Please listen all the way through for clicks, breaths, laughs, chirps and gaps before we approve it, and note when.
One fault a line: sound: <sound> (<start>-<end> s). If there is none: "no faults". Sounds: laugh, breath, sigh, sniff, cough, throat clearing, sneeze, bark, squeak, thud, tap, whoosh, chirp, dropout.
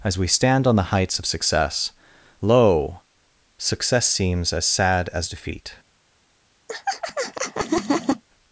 sound: laugh (6.7-8.2 s)